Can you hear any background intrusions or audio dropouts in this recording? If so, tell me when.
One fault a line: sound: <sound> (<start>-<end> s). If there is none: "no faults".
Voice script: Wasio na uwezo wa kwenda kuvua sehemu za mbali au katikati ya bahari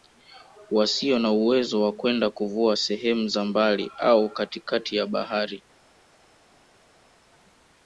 no faults